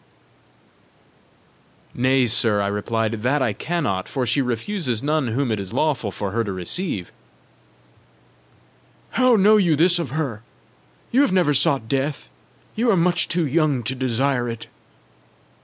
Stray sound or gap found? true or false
false